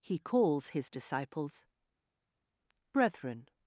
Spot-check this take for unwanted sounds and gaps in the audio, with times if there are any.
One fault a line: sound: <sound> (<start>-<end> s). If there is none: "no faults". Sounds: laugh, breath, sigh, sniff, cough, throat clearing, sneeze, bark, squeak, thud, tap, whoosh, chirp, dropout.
no faults